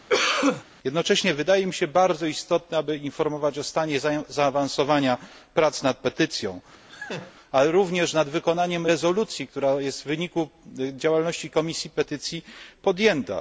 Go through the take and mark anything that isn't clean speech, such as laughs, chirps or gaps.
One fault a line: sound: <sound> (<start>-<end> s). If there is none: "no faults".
sound: cough (0.1-0.6 s)
sound: laugh (6.9-7.3 s)